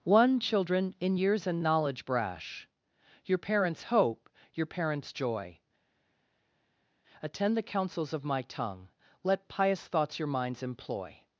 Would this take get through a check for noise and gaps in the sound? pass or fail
pass